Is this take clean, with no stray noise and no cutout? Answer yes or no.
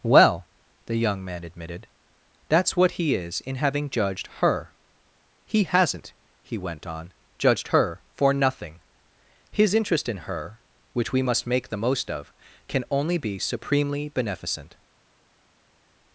yes